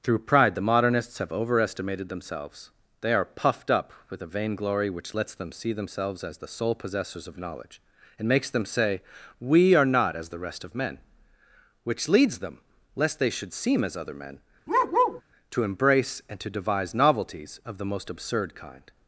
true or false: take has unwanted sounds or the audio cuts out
true